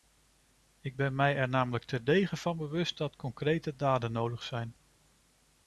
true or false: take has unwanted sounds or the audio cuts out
false